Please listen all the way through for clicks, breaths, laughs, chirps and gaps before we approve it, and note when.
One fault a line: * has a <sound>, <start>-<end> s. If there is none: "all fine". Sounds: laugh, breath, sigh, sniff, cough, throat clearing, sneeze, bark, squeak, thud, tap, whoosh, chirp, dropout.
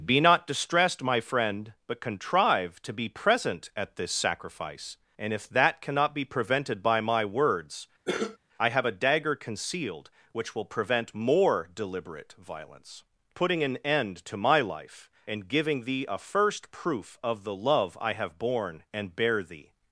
* has a cough, 8.1-8.4 s